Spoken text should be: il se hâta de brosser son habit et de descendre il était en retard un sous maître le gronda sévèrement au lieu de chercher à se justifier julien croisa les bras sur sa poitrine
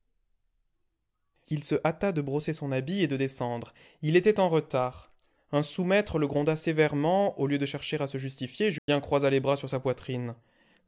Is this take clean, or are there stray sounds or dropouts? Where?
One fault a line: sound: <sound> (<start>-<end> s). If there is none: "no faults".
sound: dropout (8.8-8.9 s)